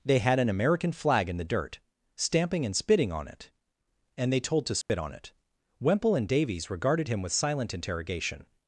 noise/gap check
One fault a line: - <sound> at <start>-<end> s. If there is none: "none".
- dropout at 4.8-4.9 s